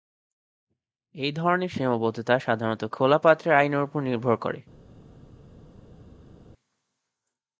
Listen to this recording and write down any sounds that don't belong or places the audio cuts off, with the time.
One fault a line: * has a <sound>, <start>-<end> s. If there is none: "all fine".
all fine